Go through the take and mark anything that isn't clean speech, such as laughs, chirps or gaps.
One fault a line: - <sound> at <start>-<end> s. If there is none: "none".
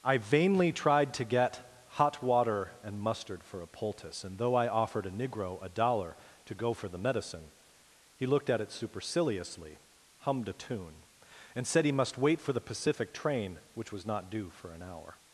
none